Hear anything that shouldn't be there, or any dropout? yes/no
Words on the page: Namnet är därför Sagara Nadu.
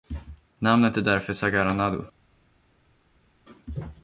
no